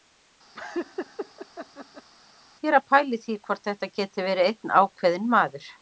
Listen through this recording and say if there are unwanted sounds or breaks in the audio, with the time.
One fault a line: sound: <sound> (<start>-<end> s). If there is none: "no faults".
sound: laugh (0.5-2.1 s)